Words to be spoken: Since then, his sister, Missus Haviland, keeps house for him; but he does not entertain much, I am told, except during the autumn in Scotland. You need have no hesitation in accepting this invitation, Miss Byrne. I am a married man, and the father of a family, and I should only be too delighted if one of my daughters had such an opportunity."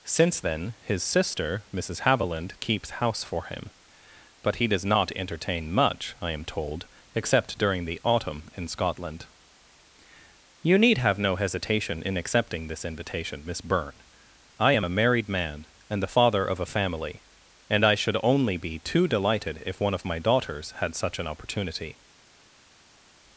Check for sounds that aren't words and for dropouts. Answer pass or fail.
pass